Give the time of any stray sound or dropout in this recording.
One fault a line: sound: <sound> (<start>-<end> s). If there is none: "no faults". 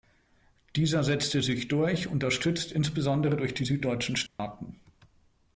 sound: dropout (4.3-4.4 s)